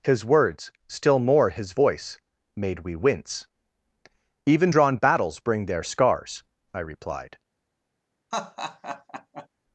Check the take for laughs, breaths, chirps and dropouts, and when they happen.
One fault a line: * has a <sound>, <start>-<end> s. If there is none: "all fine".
* has a laugh, 8.3-9.5 s